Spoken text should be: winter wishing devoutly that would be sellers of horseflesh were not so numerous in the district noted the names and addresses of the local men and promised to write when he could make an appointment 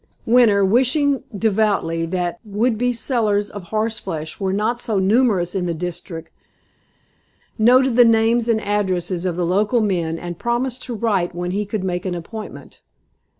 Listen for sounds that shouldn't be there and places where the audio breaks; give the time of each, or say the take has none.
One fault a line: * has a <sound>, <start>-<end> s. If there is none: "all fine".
all fine